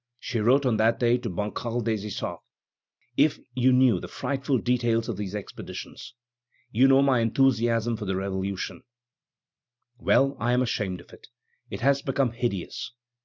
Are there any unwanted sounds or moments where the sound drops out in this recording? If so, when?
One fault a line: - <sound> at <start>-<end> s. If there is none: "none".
none